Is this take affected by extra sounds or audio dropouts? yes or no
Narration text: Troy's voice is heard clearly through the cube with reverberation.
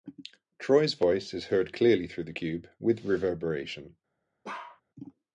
yes